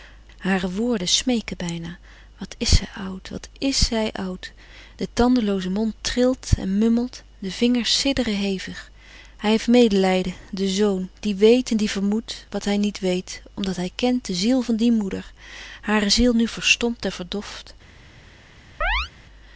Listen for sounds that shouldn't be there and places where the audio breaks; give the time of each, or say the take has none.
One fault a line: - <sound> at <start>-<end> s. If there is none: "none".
- chirp at 18.8-19.1 s